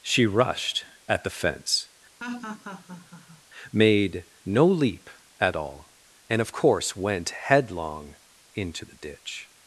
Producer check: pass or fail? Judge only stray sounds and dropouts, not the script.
fail